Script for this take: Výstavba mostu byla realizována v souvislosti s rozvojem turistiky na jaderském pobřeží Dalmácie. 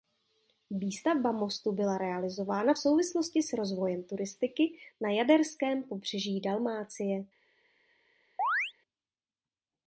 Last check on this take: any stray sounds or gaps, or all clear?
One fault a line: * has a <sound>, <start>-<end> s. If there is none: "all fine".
* has a chirp, 8.4-8.7 s